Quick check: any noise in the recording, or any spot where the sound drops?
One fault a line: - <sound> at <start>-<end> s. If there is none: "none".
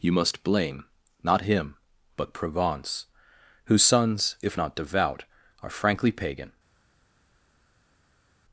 none